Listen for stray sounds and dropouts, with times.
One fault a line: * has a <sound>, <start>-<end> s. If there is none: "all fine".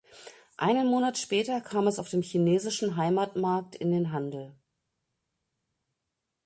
all fine